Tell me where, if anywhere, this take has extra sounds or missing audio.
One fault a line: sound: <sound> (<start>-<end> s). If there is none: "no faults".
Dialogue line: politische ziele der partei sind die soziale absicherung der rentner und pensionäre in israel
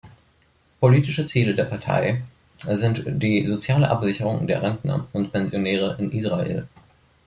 no faults